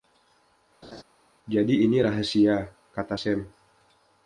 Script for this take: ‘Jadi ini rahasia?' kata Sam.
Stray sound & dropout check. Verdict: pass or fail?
fail